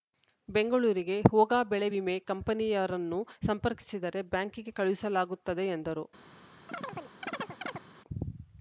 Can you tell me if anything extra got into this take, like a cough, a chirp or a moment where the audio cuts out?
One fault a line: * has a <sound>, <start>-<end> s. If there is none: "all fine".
* has a chirp, 6.7-7.8 s